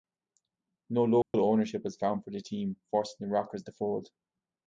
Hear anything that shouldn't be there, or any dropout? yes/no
yes